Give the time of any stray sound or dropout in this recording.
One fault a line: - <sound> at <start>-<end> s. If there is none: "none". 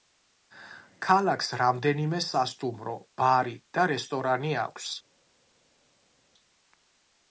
none